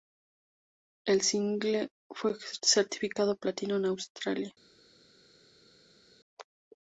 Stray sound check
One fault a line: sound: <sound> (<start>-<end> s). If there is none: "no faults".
no faults